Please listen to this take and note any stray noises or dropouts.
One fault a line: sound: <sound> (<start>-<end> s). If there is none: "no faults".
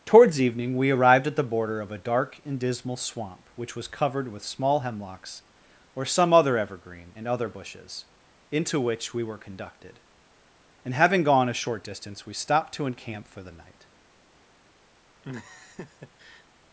sound: laugh (15.2-16.5 s)